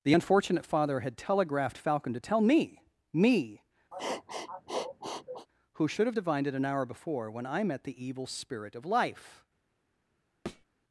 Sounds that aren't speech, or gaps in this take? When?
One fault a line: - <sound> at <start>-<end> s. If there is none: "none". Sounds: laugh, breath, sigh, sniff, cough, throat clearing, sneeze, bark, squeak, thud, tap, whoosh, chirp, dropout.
- sniff at 3.9-5.5 s
- thud at 10.5-10.7 s